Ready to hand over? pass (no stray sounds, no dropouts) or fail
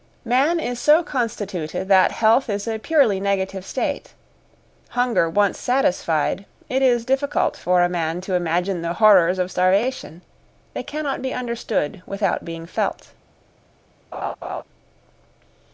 fail